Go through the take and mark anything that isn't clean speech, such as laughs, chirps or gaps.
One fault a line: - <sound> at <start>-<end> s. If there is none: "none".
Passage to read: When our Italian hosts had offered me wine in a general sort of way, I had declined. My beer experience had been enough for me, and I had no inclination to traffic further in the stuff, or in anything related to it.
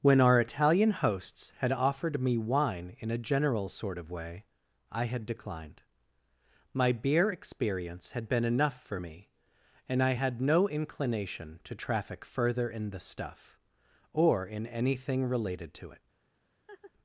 - laugh at 16.7-16.9 s